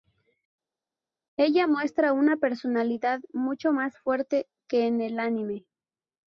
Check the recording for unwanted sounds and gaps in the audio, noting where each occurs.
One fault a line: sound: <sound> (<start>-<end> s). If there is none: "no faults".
no faults